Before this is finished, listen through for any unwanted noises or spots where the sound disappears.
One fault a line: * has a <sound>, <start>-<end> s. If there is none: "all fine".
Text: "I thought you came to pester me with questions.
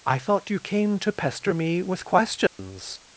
* has a dropout, 2.5-2.6 s